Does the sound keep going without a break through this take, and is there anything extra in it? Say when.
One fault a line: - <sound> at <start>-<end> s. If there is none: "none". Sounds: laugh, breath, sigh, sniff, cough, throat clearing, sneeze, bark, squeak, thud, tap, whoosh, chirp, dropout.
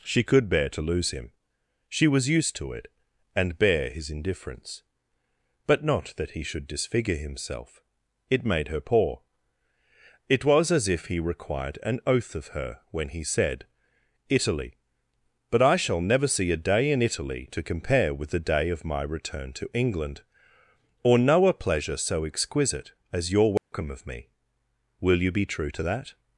- dropout at 23.6-23.7 s